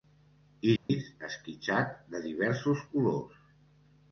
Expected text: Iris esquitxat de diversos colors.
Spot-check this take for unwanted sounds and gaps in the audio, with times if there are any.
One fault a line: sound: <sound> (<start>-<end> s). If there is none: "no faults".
sound: dropout (0.8-0.9 s)